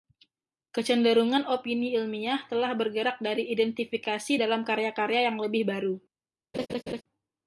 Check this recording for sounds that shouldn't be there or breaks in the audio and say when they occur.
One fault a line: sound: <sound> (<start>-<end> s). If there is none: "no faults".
sound: laugh (6.5-7.0 s)